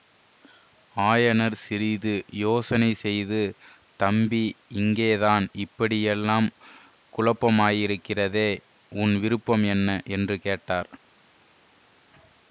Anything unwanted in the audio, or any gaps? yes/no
no